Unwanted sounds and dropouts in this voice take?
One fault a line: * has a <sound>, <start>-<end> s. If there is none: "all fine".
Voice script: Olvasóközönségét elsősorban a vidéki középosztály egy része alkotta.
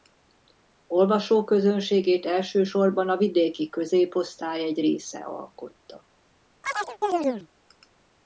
* has a chirp, 6.6-7.5 s